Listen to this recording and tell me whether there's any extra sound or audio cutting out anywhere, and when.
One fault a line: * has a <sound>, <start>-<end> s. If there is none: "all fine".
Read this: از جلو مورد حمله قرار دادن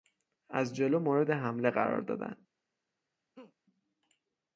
* has a laugh, 3.3-3.5 s